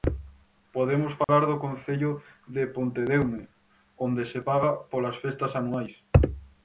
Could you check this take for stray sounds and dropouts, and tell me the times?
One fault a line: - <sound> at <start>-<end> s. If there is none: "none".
- dropout at 1.2-1.3 s